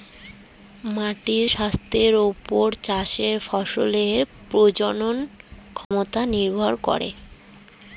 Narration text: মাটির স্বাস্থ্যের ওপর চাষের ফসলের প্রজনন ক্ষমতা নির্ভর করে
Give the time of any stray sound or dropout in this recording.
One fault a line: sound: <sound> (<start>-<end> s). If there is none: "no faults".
sound: dropout (5.8-5.9 s)